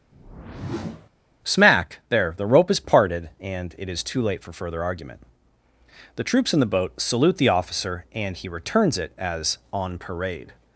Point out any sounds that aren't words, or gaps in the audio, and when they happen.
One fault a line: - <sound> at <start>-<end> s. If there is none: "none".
- whoosh at 0.1-1.1 s